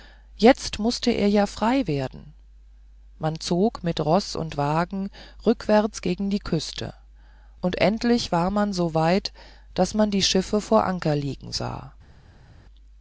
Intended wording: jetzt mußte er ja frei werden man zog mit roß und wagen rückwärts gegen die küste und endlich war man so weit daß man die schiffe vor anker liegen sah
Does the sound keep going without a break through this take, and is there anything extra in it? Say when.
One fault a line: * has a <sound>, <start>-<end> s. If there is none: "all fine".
all fine